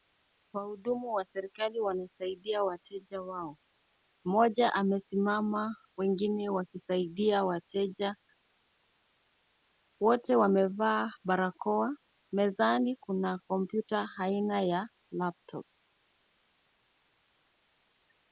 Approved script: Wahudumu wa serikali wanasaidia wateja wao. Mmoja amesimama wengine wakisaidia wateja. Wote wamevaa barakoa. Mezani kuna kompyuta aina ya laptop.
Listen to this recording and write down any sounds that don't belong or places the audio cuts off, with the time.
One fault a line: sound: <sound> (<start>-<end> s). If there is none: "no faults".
no faults